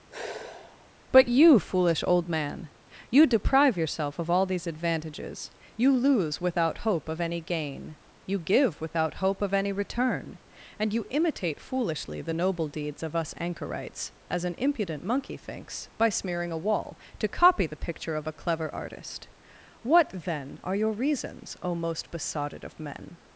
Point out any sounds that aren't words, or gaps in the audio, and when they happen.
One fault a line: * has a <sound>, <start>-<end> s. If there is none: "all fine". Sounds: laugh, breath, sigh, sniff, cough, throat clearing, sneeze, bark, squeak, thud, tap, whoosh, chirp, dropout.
* has a sigh, 0.1-0.9 s